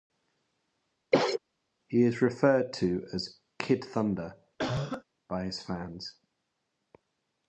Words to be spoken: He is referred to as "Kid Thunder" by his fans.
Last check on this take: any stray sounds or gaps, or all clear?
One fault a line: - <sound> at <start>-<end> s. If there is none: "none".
- cough at 1.1-1.4 s
- cough at 4.6-5.0 s